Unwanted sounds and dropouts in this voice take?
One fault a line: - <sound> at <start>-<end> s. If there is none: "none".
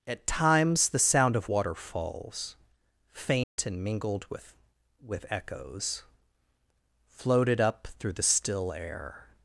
- dropout at 3.4-3.6 s